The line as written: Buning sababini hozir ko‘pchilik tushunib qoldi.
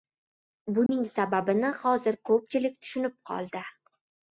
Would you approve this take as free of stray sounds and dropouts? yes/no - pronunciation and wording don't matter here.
no